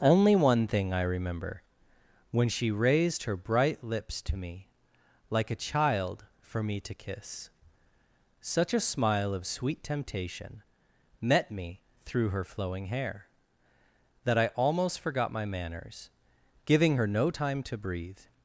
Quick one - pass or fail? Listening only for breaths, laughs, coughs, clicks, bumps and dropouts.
pass